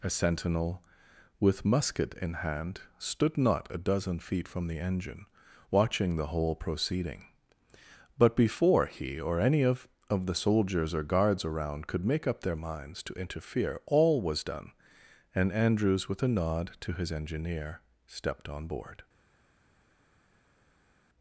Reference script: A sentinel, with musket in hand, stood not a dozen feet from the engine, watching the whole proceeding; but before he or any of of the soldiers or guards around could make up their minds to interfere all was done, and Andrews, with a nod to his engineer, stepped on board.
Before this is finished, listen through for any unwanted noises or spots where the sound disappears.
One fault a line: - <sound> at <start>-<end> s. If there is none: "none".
none